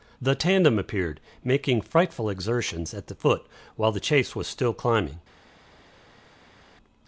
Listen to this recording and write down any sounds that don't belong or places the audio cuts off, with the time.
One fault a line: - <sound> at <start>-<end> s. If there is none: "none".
none